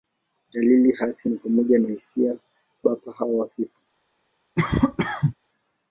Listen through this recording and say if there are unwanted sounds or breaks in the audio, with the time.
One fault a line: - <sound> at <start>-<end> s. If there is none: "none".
- cough at 4.6-5.3 s